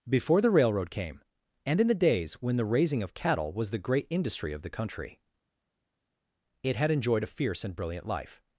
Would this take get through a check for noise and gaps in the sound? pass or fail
pass